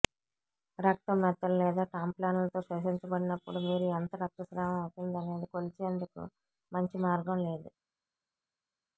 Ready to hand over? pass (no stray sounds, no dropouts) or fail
pass